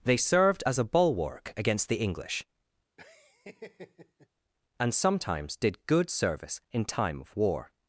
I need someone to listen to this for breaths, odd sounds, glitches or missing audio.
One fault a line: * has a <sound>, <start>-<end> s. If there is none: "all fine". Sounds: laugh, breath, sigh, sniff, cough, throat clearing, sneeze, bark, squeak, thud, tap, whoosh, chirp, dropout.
* has a laugh, 3.0-4.3 s